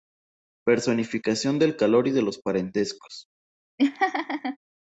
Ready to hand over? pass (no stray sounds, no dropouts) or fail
fail